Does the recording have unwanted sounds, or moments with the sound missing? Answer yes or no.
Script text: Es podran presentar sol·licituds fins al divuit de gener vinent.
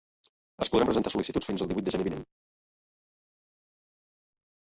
no